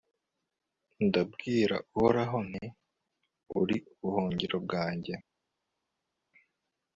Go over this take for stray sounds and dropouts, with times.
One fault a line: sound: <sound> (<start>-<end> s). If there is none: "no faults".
no faults